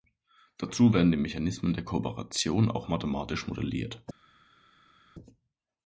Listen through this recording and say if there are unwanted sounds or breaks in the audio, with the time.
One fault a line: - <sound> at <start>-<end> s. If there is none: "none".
none